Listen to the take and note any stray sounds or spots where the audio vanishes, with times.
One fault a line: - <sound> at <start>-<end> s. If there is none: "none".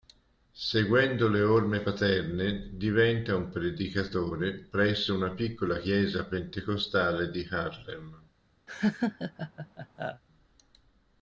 - laugh at 8.7-10.2 s